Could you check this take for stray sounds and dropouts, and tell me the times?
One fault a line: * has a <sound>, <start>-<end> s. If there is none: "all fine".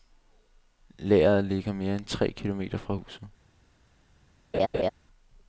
* has a laugh, 4.5-4.9 s